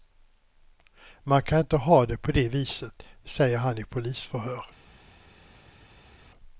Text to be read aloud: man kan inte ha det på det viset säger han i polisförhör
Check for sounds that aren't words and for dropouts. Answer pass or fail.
pass